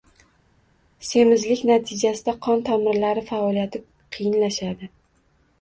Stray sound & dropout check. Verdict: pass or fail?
pass